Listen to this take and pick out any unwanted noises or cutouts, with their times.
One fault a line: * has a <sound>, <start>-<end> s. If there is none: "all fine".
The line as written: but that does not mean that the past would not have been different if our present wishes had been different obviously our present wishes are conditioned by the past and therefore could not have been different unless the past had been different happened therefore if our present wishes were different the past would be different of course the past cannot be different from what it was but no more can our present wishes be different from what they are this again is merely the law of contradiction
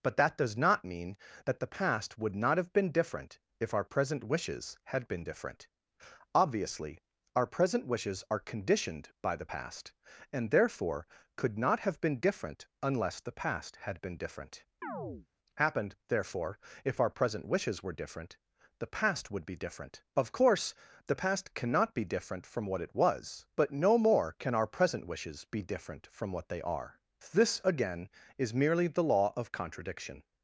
* has a chirp, 14.8-15.3 s